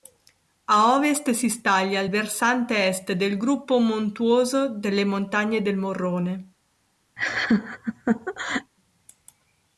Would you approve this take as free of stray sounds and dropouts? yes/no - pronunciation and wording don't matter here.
no